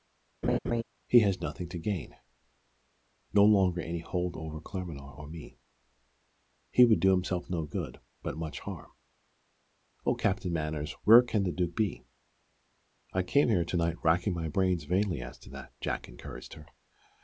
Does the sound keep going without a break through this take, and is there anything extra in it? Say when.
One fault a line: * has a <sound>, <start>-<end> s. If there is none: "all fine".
* has a laugh, 0.4-0.8 s